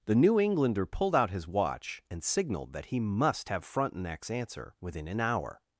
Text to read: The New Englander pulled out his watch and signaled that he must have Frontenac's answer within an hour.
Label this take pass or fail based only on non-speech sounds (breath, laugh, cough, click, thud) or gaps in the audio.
pass